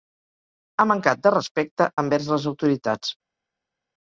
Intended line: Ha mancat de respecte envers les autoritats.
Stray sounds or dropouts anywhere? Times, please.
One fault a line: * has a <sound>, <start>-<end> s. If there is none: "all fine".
all fine